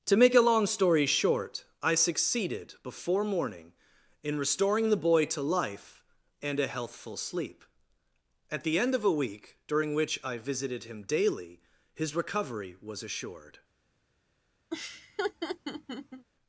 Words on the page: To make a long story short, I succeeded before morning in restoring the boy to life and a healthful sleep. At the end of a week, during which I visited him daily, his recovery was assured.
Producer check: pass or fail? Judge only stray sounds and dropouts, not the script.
fail